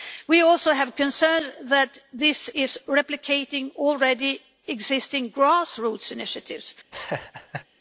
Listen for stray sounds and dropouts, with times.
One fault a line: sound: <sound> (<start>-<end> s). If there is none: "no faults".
sound: laugh (6.9-7.7 s)